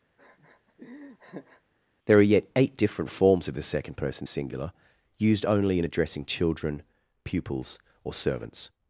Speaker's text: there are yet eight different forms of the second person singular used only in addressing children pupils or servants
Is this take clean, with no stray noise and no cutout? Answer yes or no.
no